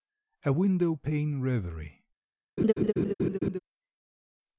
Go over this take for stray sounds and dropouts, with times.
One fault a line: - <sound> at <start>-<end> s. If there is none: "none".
- laugh at 2.6-3.6 s